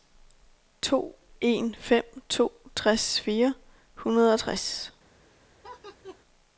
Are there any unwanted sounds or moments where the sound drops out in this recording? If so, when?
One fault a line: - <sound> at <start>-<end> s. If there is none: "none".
- laugh at 5.6-6.2 s